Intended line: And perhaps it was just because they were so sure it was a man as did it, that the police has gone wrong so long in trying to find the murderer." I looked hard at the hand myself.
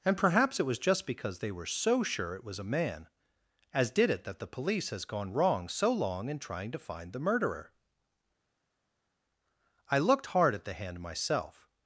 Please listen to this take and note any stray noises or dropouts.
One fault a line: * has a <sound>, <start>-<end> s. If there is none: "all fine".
all fine